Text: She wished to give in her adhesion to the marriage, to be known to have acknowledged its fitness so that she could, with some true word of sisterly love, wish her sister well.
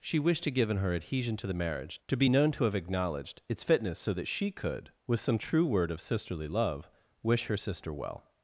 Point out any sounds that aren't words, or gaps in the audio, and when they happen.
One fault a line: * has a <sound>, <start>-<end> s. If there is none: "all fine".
all fine